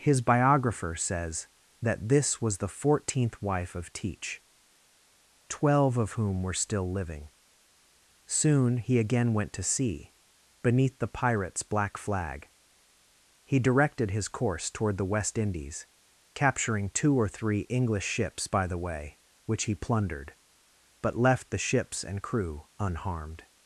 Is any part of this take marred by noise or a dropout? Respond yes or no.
no